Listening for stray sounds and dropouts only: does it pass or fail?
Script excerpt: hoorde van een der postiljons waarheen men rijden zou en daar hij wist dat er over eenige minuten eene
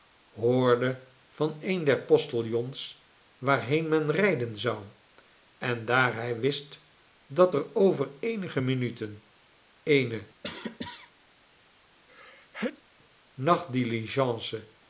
fail